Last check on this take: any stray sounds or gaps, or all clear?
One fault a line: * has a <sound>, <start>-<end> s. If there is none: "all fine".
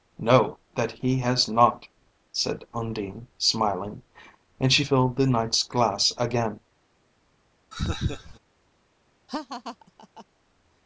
* has a laugh, 7.7-8.4 s
* has a laugh, 9.3-10.3 s